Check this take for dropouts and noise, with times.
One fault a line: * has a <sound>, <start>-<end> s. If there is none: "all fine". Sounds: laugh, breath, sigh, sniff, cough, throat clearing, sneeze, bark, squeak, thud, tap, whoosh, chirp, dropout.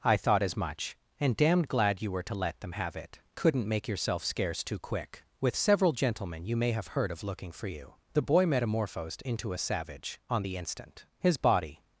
all fine